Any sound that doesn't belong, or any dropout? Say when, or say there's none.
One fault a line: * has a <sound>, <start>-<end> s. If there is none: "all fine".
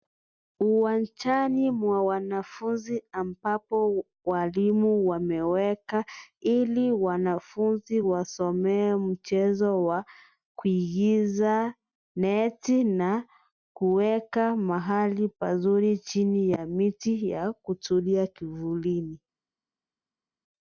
all fine